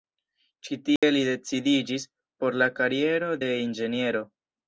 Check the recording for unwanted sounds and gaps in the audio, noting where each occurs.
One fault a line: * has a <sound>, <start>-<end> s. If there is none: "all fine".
* has a dropout, 1.0-1.0 s